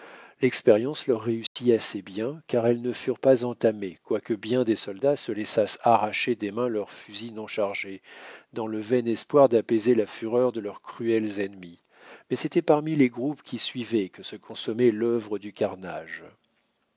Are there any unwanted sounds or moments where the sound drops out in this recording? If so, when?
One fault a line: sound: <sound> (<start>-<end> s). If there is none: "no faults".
sound: dropout (1.5-1.6 s)